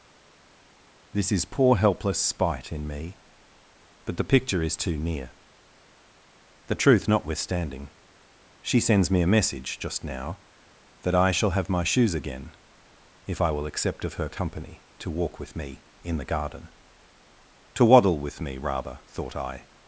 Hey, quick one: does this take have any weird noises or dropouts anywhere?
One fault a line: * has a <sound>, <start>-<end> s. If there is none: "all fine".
all fine